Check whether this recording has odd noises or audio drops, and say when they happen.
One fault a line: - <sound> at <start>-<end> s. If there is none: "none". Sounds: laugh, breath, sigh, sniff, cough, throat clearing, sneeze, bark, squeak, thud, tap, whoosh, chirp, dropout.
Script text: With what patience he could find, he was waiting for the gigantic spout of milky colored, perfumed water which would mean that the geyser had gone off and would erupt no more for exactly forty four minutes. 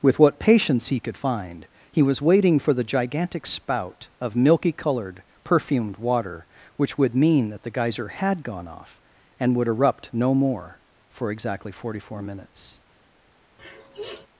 - sniff at 13.6-14.3 s